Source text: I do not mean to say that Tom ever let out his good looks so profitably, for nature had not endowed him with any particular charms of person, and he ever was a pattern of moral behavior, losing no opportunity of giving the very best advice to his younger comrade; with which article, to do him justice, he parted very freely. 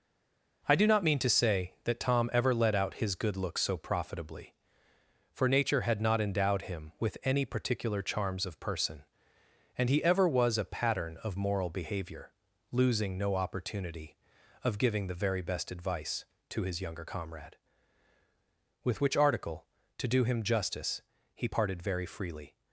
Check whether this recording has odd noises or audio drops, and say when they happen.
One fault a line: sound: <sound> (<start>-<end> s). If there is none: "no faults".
no faults